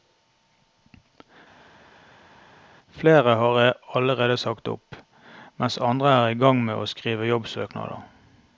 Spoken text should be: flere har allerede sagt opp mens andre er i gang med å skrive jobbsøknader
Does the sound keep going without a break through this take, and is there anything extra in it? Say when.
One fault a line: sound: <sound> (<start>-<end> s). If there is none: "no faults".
no faults